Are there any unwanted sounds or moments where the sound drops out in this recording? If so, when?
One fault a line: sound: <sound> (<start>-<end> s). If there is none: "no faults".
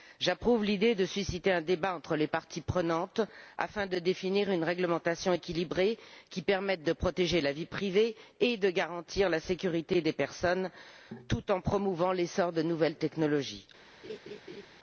sound: laugh (14.0-14.7 s)